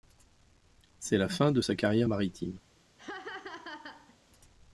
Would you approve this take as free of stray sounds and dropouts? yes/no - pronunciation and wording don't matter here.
no